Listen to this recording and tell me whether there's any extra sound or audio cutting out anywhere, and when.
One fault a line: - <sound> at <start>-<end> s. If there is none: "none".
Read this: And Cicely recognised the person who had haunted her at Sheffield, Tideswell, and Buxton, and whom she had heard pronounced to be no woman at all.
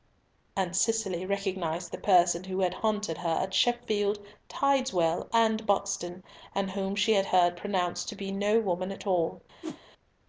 - whoosh at 9.6-9.8 s